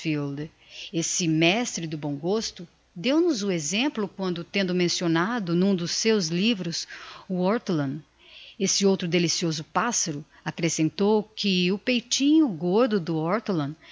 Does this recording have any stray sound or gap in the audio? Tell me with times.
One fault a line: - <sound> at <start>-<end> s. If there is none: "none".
none